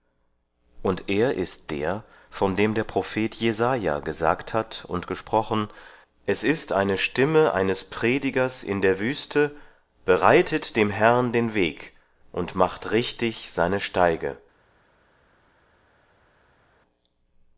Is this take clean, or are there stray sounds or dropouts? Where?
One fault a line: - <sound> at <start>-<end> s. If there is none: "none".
none